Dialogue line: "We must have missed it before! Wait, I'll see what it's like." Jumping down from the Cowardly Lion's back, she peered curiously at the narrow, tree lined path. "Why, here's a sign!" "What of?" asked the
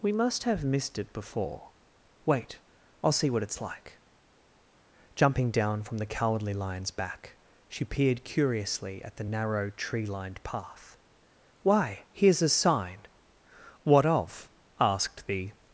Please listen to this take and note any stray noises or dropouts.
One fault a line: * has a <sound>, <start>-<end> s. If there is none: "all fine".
all fine